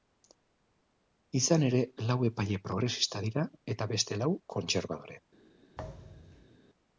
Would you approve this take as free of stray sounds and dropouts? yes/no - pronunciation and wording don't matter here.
no